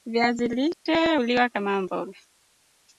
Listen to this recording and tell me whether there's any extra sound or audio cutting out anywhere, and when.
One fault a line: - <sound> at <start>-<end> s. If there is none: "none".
- dropout at 0.7-0.9 s